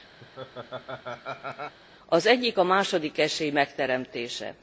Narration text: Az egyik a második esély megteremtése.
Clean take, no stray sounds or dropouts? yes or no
no